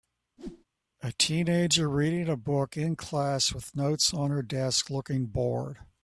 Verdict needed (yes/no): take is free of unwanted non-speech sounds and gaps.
no